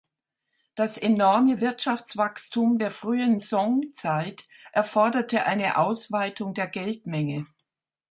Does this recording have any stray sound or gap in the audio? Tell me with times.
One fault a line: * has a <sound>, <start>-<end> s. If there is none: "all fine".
all fine